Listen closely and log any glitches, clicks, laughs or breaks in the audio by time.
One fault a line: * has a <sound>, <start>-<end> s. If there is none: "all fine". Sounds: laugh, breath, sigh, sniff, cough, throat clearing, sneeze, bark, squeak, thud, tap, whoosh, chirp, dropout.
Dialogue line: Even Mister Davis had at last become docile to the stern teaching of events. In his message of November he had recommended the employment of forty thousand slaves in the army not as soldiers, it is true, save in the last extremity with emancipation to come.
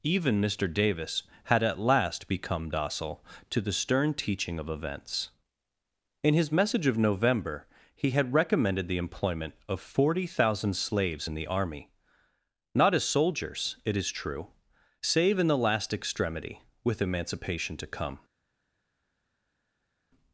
all fine